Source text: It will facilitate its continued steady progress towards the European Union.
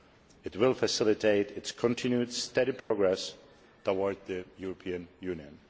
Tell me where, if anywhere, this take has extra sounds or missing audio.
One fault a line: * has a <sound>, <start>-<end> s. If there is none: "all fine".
* has a dropout, 2.8-2.9 s